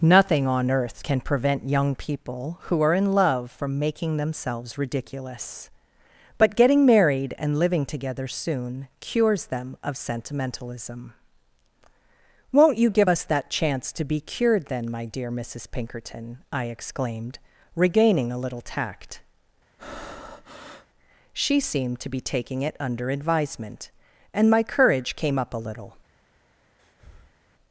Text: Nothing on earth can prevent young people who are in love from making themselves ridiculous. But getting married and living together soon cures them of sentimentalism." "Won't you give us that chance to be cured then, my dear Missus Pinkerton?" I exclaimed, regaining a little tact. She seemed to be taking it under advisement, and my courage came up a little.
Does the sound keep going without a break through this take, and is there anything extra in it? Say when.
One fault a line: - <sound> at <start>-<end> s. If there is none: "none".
- breath at 19.8-20.9 s
- breath at 26.8-27.4 s